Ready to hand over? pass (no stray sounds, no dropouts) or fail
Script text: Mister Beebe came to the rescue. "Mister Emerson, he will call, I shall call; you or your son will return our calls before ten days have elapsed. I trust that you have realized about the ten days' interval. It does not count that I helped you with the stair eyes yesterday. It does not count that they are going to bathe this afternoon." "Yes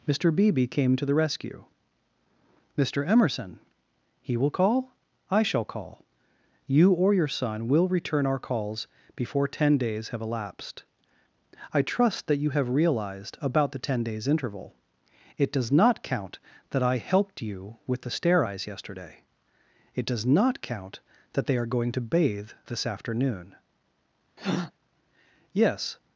fail